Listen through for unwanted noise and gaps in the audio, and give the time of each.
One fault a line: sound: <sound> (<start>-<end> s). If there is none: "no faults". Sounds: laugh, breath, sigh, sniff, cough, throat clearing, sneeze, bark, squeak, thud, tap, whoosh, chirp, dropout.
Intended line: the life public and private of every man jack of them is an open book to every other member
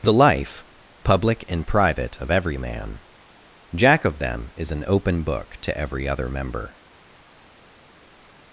no faults